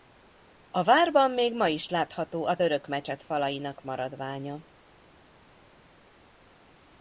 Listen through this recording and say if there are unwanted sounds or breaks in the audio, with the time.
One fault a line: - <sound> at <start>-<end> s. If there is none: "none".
none